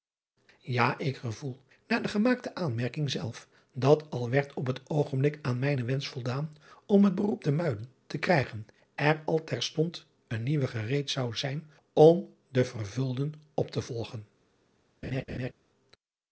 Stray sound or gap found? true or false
true